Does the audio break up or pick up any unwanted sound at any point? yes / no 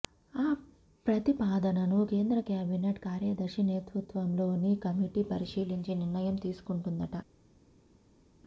no